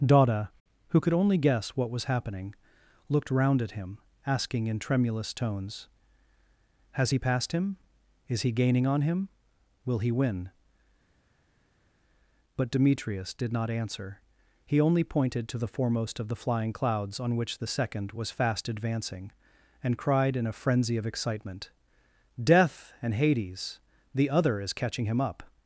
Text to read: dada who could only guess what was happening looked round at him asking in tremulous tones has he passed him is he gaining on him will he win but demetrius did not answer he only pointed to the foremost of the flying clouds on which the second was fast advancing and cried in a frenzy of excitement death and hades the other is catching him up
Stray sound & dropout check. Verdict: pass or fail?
pass